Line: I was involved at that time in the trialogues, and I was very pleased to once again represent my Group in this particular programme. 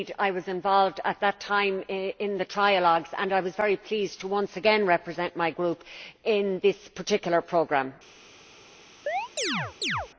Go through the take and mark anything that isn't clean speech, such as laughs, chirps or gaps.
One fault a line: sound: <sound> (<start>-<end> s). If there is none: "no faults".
sound: chirp (9.1-10.1 s)